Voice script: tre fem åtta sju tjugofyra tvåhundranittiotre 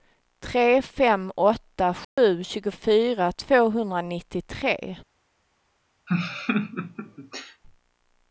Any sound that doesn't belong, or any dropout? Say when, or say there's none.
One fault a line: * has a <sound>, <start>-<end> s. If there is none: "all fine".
* has a dropout, 2.0-2.2 s
* has a laugh, 6.1-7.6 s